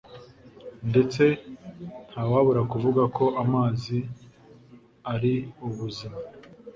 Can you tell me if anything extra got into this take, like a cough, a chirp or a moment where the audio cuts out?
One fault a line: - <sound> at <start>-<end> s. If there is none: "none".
none